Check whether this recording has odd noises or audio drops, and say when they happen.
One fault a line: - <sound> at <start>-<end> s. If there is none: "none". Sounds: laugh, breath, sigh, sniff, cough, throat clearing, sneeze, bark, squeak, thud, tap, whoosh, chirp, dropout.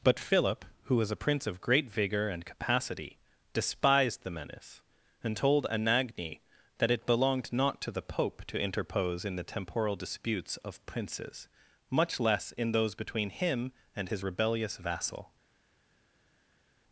none